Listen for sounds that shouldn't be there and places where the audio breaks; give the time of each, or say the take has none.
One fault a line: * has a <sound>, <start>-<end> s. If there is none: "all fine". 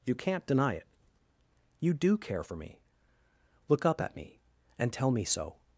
all fine